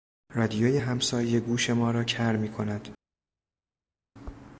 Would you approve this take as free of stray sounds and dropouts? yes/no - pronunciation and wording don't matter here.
yes